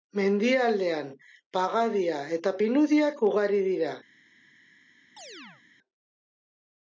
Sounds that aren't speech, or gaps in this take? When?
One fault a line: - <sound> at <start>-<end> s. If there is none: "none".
- chirp at 5.2-5.6 s